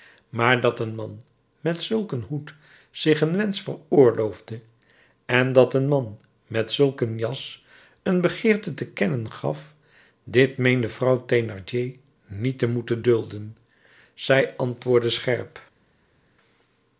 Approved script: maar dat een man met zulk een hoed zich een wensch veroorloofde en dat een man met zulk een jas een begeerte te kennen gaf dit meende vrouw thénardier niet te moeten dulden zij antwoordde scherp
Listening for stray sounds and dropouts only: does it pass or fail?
pass